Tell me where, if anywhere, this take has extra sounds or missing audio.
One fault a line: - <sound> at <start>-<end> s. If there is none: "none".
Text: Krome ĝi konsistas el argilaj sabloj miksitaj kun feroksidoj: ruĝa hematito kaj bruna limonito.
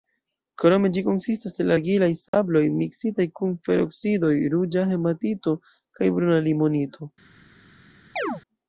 - dropout at 2.3-2.3 s
- chirp at 8.2-8.4 s